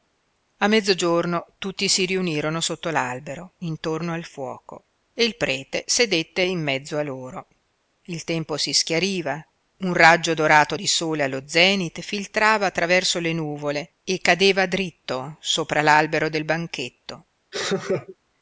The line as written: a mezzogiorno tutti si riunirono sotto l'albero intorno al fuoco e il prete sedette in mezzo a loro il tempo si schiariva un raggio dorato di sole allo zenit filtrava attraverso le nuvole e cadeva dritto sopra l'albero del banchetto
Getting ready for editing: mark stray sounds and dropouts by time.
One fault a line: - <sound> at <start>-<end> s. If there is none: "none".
- laugh at 17.5-18.2 s